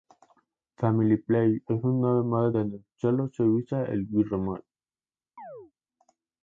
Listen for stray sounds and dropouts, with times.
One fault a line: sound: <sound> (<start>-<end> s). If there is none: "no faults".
sound: chirp (5.4-5.7 s)